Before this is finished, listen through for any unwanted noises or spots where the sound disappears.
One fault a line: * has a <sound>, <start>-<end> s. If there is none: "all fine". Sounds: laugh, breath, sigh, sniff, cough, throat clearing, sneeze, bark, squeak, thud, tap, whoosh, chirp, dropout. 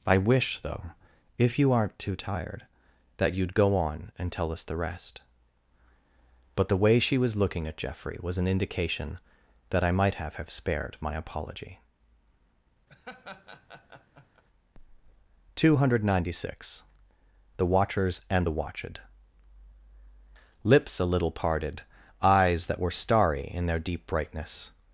* has a laugh, 12.9-14.4 s